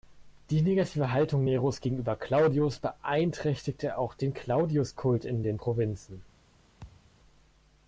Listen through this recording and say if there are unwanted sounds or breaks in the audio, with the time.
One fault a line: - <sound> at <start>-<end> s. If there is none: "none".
- thud at 6.8-7.1 s